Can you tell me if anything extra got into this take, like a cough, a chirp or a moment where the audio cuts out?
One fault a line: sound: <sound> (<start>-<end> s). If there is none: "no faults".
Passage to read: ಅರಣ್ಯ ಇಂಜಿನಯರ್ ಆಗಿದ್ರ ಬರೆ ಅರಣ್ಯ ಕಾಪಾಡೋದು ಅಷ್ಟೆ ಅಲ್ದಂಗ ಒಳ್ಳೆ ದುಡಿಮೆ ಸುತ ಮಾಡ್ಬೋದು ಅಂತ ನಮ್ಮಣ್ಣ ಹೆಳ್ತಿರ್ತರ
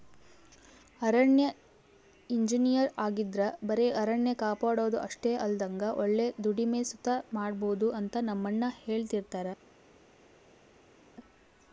no faults